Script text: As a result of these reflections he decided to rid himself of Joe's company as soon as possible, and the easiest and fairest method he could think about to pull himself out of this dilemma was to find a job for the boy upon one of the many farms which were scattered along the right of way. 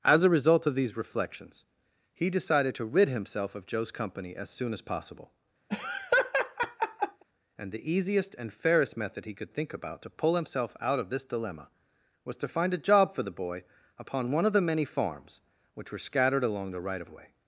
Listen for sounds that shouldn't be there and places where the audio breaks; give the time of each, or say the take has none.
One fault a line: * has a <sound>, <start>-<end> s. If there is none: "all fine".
* has a laugh, 5.7-7.2 s